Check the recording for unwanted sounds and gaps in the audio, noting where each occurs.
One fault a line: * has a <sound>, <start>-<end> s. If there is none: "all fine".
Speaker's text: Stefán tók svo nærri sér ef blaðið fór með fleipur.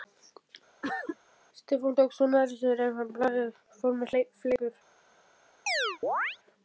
* has a cough, 0.8-1.2 s
* has a chirp, 5.7-6.4 s